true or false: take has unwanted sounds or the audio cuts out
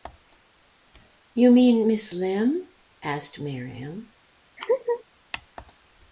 true